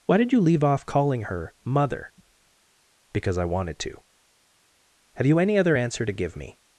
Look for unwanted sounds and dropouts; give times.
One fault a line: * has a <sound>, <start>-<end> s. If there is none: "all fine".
all fine